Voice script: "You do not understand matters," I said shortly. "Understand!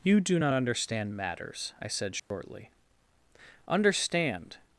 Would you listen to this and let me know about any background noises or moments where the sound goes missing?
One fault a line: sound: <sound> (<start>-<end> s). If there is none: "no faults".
sound: dropout (2.2-2.3 s)